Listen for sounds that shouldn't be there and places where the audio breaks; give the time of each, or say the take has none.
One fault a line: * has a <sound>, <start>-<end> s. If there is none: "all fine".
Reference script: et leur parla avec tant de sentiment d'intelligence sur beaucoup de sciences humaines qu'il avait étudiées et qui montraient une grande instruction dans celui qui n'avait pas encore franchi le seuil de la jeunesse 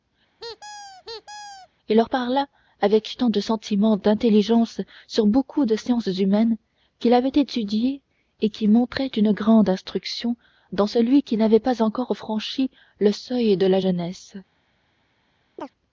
* has a squeak, 0.4-1.7 s
* has a chirp, 15.6-15.7 s